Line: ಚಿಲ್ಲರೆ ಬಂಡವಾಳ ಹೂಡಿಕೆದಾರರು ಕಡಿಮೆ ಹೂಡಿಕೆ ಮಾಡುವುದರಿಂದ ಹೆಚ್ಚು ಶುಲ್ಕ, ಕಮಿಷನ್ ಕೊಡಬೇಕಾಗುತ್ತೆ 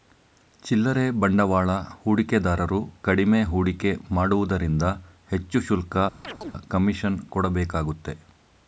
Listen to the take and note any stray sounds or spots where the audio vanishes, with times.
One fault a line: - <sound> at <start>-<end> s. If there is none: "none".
- chirp at 6.2-6.5 s